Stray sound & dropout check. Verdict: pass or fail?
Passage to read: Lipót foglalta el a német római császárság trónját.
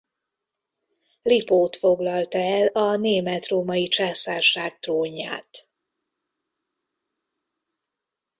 pass